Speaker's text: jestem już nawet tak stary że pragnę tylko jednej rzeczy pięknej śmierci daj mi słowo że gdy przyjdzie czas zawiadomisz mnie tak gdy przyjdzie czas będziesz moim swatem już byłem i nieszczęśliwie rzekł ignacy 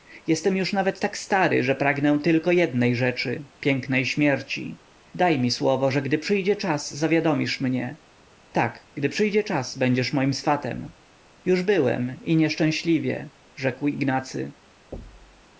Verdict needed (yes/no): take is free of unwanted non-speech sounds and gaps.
no